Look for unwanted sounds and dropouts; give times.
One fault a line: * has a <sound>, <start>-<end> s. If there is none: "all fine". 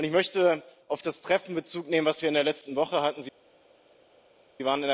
all fine